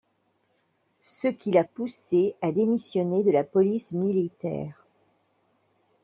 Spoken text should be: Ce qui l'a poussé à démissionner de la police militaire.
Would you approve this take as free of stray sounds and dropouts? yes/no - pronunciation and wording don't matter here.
yes